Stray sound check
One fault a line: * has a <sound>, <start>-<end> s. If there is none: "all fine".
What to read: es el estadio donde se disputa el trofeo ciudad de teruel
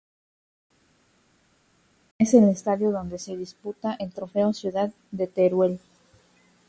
all fine